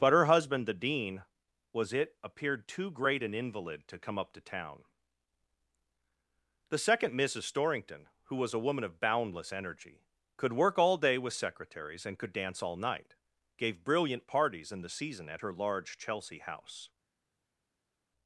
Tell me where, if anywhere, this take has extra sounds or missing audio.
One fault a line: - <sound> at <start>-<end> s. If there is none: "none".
none